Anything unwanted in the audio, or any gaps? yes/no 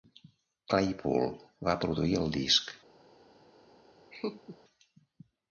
yes